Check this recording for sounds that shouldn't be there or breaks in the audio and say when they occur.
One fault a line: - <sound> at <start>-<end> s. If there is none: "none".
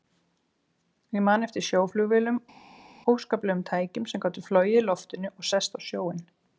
none